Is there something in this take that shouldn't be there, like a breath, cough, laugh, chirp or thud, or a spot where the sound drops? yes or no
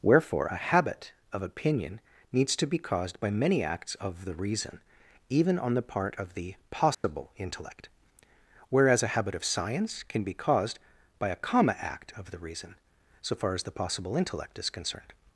yes